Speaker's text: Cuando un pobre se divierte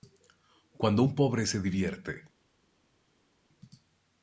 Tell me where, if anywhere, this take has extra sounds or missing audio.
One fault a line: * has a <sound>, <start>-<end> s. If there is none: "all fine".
all fine